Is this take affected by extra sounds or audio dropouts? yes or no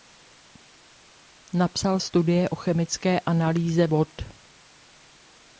no